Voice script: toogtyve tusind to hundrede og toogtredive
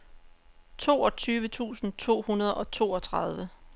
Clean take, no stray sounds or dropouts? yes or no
yes